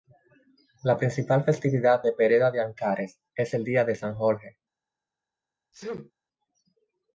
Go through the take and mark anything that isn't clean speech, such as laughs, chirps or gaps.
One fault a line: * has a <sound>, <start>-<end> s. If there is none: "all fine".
* has a sneeze, 5.7-6.1 s